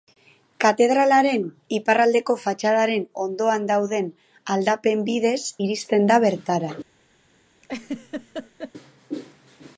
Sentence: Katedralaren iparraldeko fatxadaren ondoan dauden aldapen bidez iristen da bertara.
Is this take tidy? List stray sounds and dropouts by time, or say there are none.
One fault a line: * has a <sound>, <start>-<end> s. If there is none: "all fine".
* has a laugh, 7.6-8.7 s